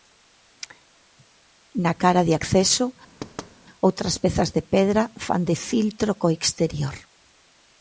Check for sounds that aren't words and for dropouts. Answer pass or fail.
fail